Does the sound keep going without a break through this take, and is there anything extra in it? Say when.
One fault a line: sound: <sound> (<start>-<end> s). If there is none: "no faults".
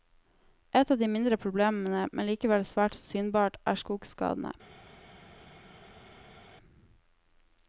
no faults